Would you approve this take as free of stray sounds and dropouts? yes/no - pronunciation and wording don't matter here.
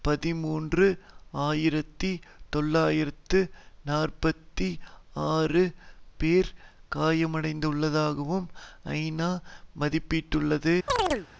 no